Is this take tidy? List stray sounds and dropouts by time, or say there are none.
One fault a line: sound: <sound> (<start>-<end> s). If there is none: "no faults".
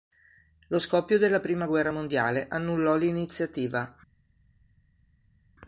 no faults